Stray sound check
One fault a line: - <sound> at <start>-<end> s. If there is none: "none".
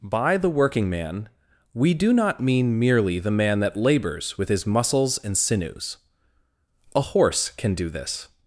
none